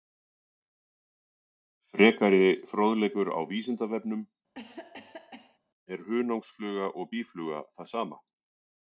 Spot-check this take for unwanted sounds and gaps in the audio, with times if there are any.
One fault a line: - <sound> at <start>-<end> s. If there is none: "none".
- cough at 4.5-5.6 s